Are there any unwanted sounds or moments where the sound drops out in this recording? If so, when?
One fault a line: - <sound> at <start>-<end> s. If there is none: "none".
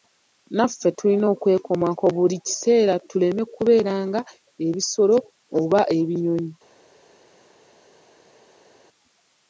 none